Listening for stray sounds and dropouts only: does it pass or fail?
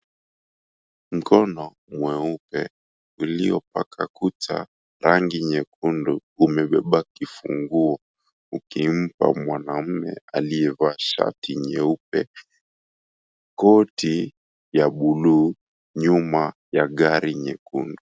pass